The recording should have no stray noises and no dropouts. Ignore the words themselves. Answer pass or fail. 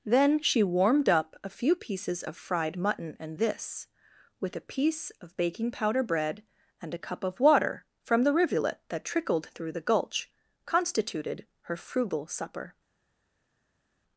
pass